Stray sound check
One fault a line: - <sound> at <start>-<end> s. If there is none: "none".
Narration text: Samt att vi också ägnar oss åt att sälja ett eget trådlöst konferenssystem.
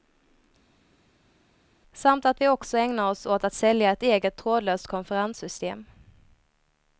none